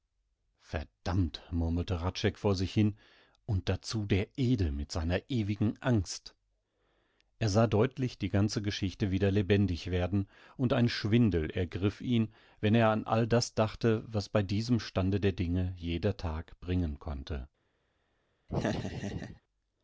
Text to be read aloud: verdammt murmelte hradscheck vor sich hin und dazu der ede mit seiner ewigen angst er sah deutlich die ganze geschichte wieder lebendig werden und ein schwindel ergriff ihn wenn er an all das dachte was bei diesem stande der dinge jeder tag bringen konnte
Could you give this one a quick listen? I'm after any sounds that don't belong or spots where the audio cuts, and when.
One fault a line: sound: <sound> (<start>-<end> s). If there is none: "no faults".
sound: laugh (18.5-19.4 s)